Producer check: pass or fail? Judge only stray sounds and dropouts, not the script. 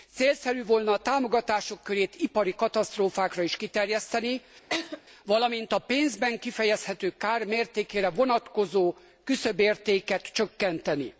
fail